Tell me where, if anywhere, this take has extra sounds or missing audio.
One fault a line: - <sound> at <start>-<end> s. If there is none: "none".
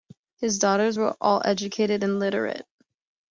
none